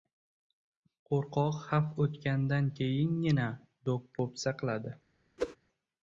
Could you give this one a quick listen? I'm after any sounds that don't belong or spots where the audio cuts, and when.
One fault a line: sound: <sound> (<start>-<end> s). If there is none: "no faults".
sound: whoosh (5.4-5.6 s)